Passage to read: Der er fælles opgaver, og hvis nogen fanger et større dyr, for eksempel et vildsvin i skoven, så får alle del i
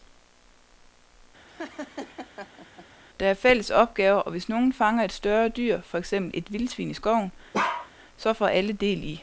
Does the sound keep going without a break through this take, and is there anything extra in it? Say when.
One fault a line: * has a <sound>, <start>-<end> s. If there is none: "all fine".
* has a laugh, 1.5-2.9 s
* has a bark, 7.5-7.9 s